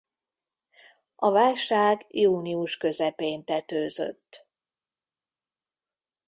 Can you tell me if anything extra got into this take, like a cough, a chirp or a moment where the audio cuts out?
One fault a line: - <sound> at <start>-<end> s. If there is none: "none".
none